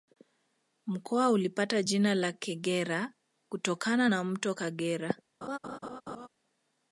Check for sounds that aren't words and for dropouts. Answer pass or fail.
fail